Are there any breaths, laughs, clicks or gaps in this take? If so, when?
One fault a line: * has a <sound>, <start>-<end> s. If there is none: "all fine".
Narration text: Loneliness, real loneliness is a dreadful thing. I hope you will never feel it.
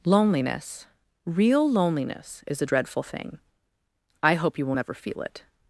all fine